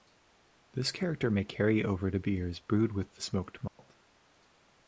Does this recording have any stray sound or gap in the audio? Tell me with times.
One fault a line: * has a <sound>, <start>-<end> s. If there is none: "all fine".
* has a dropout, 3.7-3.8 s